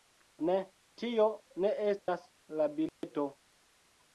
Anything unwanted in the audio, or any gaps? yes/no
yes